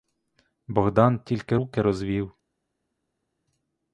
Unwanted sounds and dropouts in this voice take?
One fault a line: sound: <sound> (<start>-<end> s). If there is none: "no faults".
no faults